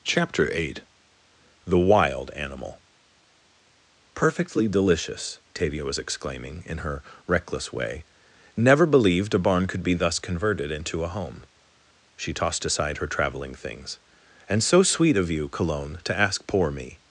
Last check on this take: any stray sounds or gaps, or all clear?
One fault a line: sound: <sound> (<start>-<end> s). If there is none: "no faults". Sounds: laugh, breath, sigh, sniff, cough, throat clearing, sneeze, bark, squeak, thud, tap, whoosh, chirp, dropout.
no faults